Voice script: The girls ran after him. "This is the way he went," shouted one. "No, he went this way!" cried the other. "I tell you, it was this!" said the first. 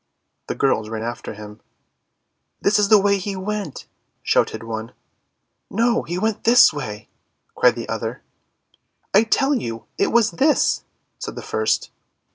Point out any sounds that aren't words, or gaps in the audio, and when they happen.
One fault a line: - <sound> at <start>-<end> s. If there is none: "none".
none